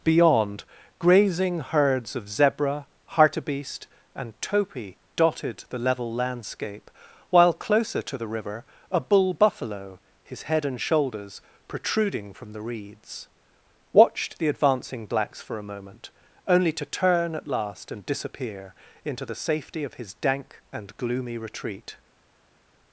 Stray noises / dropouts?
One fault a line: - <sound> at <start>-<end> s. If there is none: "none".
none